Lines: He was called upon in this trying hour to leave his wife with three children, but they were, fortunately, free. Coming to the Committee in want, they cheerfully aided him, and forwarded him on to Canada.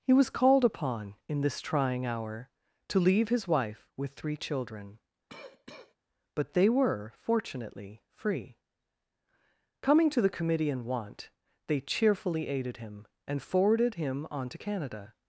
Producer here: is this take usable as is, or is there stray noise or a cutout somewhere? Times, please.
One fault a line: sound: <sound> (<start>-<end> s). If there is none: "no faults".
sound: cough (5.3-6.0 s)